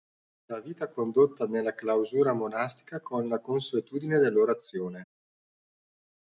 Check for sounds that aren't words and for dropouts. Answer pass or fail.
pass